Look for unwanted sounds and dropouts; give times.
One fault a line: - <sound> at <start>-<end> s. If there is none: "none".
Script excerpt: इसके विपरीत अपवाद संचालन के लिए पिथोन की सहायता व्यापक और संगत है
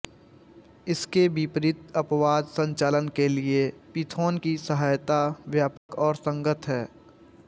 - dropout at 5.8-5.9 s